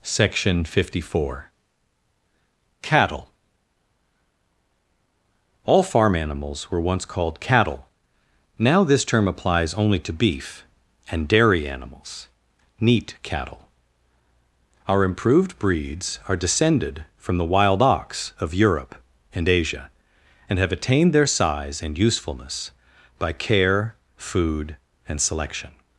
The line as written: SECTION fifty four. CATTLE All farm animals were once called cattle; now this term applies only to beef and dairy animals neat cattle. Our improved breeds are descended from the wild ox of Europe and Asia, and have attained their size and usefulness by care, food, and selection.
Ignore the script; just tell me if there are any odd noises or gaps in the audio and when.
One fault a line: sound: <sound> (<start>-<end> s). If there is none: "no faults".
no faults